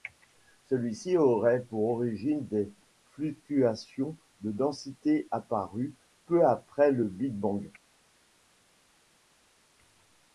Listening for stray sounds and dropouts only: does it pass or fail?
pass